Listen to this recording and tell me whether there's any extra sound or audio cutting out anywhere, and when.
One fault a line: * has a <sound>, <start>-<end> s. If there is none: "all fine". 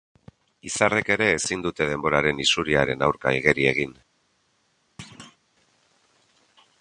* has a thud, 5.0-5.4 s